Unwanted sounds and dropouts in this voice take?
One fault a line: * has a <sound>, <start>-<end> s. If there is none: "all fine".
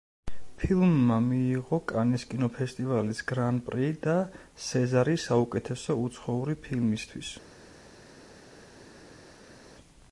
all fine